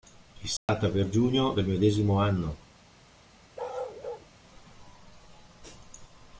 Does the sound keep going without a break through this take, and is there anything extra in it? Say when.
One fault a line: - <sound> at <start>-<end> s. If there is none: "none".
- dropout at 0.6-0.7 s
- bark at 3.6-4.3 s